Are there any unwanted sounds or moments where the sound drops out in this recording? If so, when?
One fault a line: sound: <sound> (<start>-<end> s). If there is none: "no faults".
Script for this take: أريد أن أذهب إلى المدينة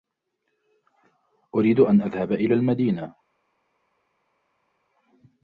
no faults